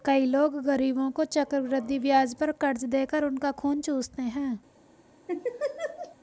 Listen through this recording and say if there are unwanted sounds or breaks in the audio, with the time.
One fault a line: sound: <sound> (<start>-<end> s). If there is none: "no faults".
sound: laugh (5.3-6.2 s)